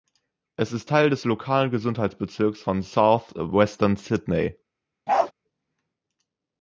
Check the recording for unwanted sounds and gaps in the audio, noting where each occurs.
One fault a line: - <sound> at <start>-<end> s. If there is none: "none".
- bark at 5.1-5.3 s